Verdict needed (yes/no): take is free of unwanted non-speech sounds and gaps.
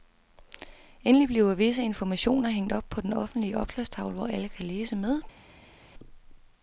yes